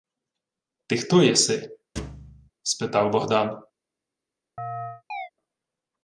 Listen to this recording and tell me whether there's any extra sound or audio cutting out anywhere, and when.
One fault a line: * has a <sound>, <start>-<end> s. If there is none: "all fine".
* has a thud, 2.0-2.5 s
* has a chirp, 4.6-5.3 s